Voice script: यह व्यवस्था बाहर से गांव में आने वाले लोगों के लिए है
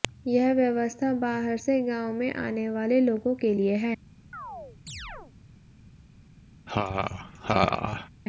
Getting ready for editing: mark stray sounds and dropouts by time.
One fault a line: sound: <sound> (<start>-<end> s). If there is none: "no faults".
sound: chirp (4.3-5.3 s)
sound: laugh (6.7-8.1 s)